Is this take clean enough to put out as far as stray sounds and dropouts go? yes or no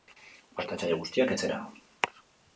yes